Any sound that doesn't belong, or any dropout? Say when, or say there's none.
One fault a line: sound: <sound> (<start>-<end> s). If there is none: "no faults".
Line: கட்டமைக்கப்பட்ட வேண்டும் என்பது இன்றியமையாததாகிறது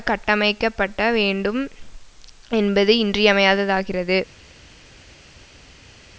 no faults